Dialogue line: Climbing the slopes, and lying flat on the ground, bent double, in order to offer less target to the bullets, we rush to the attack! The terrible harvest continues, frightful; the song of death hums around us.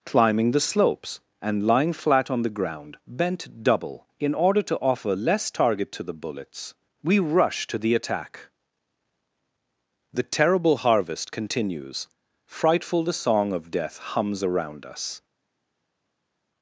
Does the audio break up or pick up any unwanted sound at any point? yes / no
no